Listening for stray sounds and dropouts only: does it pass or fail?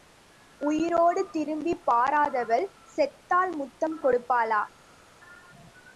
pass